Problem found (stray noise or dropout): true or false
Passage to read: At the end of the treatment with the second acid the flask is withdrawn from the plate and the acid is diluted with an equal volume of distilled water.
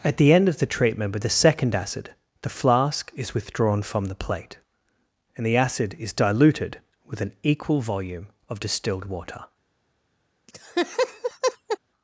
true